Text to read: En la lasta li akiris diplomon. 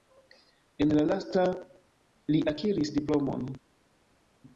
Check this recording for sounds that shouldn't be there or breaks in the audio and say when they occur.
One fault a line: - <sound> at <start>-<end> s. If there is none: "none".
none